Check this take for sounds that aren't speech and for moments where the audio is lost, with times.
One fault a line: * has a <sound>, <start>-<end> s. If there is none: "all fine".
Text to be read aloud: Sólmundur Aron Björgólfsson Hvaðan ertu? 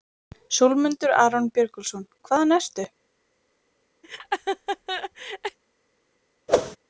* has a laugh, 4.0-5.6 s
* has a whoosh, 6.5-6.8 s